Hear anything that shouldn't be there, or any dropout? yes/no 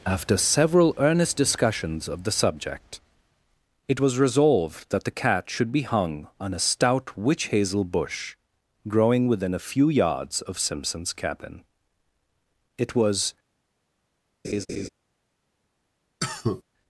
yes